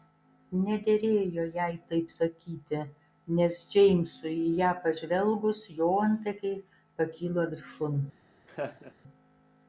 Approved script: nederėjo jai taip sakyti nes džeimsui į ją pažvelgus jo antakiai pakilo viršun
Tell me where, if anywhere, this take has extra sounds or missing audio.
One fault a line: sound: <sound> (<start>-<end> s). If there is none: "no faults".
sound: laugh (8.5-8.9 s)